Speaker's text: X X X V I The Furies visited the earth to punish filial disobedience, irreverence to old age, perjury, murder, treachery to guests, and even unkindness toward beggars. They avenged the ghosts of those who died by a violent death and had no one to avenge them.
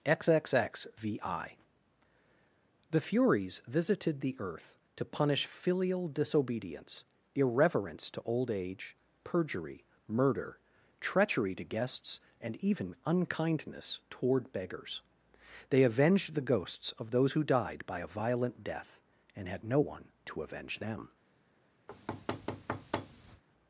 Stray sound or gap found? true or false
true